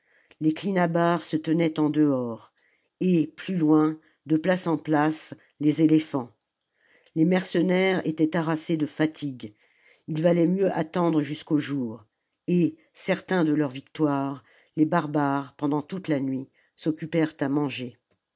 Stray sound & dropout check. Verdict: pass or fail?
pass